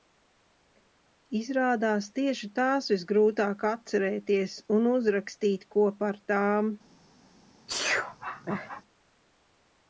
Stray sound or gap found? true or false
true